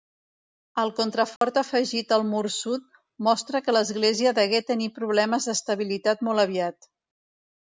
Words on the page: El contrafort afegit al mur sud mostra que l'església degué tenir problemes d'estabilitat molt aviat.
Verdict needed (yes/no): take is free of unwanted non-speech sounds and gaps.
no